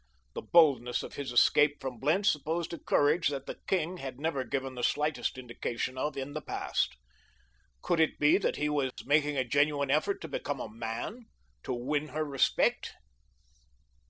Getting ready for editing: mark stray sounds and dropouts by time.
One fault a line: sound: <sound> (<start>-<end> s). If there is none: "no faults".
sound: dropout (8.9-9.0 s)